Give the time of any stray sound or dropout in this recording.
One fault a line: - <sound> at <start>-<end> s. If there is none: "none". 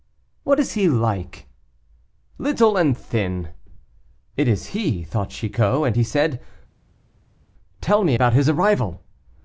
none